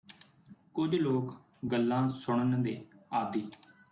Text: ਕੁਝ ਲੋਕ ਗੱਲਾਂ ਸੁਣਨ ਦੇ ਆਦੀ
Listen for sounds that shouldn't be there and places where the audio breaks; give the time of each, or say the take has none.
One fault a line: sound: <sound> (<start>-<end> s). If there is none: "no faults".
no faults